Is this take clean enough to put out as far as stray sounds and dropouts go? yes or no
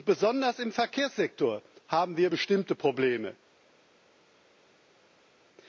yes